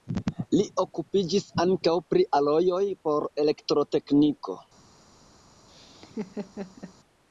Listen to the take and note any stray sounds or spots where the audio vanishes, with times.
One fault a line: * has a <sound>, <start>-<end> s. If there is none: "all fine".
* has a laugh, 5.7-6.9 s